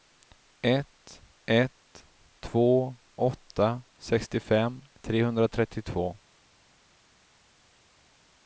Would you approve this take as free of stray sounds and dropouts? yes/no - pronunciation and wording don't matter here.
yes